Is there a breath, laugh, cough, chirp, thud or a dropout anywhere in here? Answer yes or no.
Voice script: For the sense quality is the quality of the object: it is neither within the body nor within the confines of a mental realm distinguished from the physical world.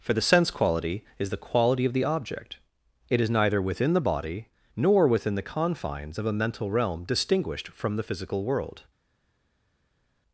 no